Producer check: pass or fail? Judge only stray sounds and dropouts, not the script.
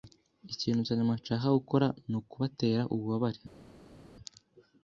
pass